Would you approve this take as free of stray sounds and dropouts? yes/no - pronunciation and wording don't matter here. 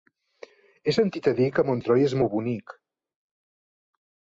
yes